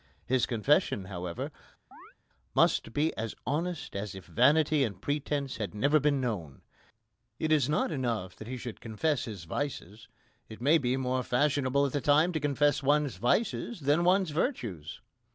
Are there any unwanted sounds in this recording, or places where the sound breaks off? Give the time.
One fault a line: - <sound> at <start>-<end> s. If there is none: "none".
- chirp at 1.9-2.1 s